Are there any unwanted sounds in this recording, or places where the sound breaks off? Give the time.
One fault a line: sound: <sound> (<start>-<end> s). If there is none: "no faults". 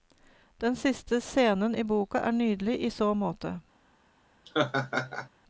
sound: laugh (4.5-5.3 s)